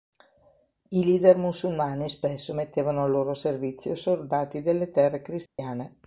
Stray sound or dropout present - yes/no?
yes